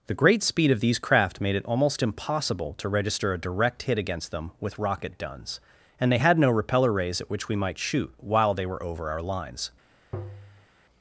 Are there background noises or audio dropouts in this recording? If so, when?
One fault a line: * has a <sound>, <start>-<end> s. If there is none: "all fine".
* has a tap, 10.1-10.7 s